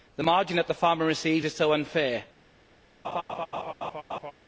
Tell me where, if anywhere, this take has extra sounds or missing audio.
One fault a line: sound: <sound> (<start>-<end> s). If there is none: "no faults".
sound: laugh (3.0-4.3 s)